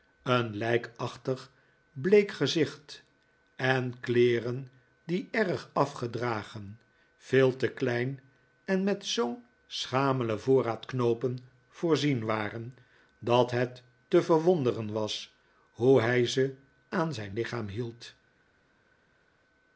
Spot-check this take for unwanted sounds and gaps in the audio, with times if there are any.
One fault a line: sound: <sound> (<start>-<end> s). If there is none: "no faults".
no faults